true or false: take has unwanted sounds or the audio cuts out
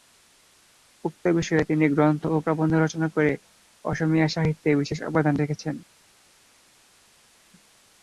false